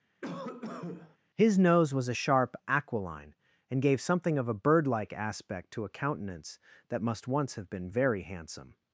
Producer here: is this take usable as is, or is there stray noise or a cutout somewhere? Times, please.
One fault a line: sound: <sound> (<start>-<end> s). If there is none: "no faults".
sound: cough (0.2-1.2 s)